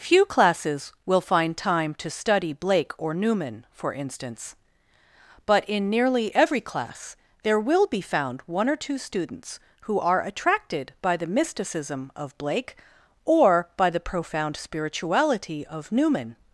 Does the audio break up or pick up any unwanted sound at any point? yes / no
no